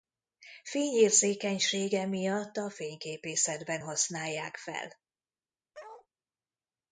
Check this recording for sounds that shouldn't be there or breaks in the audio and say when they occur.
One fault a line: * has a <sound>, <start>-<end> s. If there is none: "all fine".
* has a bark, 5.7-6.1 s